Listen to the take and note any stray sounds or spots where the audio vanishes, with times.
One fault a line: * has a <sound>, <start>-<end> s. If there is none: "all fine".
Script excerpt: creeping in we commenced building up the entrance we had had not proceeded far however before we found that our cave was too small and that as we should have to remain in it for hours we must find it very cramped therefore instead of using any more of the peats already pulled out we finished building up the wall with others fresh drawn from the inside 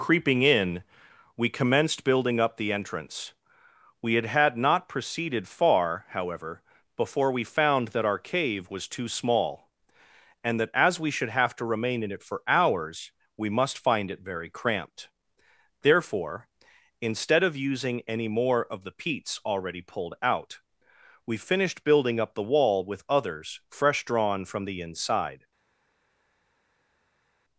all fine